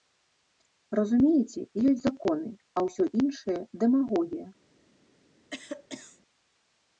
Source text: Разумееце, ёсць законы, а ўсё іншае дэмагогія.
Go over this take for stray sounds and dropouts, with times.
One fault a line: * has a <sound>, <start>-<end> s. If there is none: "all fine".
* has a cough, 5.5-6.2 s